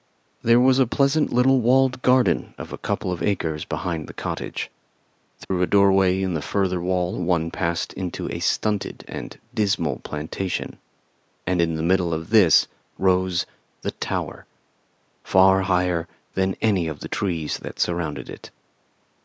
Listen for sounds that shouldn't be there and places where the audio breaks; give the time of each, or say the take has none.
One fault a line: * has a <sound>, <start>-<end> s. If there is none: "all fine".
* has a dropout, 5.4-5.5 s